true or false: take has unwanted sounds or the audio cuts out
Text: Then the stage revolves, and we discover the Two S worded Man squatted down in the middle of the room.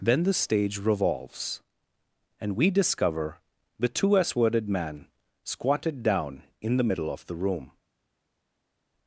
false